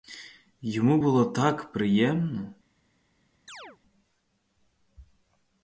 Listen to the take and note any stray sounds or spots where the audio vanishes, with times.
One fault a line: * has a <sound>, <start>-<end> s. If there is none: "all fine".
* has a chirp, 3.5-3.8 s